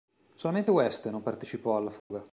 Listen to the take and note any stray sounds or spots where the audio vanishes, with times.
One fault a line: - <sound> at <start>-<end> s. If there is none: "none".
- dropout at 2.0-2.1 s